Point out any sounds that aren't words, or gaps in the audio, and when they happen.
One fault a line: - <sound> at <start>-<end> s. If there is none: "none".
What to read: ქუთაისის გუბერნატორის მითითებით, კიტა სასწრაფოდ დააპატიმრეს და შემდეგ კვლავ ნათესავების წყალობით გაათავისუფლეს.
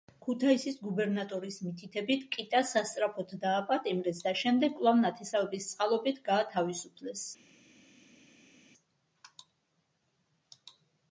none